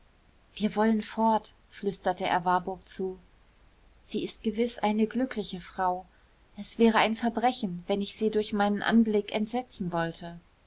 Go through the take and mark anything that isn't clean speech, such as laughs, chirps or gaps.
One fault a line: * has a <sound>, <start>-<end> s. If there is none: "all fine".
all fine